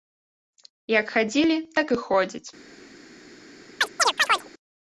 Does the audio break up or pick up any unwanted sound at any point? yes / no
yes